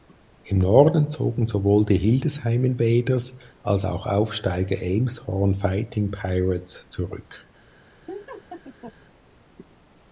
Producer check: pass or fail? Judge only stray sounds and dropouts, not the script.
fail